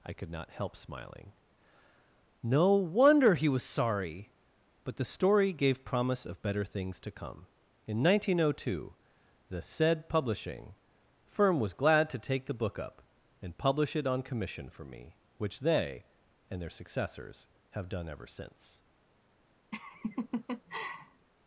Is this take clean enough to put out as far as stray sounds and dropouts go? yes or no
no